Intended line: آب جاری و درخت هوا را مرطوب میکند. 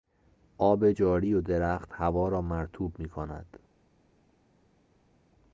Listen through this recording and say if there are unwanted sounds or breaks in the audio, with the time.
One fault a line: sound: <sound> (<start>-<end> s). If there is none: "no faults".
no faults